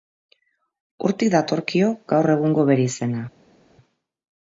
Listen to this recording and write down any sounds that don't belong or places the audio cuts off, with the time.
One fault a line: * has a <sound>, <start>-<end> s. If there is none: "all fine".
all fine